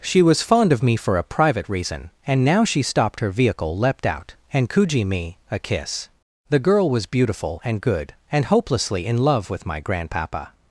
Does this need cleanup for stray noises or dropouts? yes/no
no